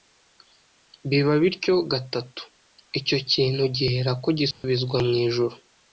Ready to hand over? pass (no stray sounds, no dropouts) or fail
fail